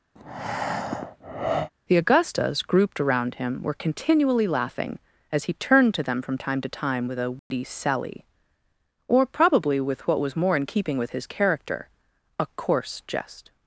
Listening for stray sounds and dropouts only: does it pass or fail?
fail